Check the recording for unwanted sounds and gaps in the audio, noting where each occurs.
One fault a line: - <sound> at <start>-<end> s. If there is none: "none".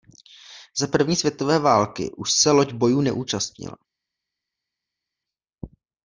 none